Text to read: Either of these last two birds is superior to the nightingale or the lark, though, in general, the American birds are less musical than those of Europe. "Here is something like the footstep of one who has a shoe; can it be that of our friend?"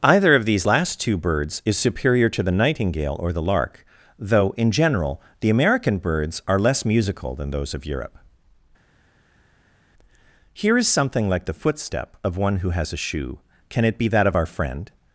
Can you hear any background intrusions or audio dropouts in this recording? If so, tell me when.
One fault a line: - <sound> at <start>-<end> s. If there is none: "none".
none